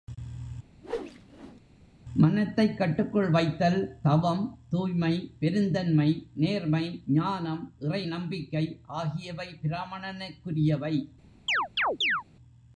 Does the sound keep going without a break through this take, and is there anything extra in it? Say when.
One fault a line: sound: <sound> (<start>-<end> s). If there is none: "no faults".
sound: whoosh (0.8-1.6 s)
sound: chirp (11.5-12.2 s)